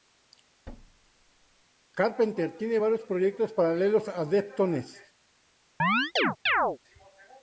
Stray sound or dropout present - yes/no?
yes